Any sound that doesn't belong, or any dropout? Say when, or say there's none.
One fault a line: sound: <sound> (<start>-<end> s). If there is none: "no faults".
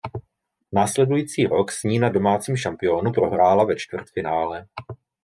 no faults